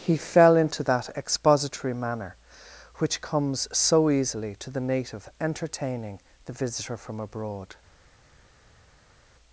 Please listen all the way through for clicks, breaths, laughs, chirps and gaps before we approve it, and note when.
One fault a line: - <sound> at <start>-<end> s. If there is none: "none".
none